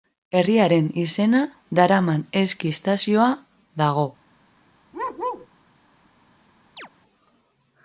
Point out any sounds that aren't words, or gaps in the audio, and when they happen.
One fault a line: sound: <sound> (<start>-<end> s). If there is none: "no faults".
sound: bark (4.9-5.5 s)
sound: chirp (6.8-6.9 s)